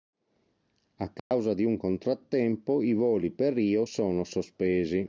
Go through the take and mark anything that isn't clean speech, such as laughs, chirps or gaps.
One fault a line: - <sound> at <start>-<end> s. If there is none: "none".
- dropout at 1.2-1.3 s